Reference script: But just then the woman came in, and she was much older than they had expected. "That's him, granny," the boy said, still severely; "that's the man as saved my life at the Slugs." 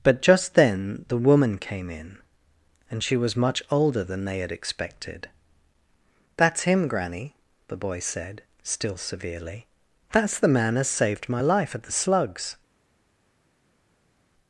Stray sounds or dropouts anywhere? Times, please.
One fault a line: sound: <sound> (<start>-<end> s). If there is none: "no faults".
no faults